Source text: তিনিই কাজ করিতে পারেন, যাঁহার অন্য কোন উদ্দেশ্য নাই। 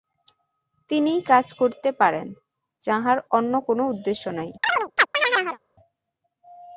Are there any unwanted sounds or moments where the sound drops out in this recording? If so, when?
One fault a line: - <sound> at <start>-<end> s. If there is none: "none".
- chirp at 4.6-5.6 s